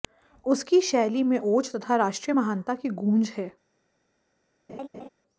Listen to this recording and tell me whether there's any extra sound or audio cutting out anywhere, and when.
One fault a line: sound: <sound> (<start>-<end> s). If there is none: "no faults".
sound: laugh (4.7-5.1 s)